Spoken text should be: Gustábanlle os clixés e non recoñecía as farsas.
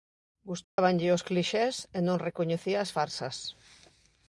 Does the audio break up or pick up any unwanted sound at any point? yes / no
yes